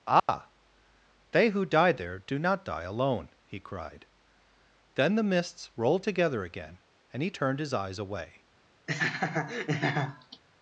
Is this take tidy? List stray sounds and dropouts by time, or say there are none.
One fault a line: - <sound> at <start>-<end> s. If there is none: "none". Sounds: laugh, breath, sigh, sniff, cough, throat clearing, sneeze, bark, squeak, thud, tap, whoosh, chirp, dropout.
- dropout at 0.2-0.3 s
- laugh at 8.9-10.4 s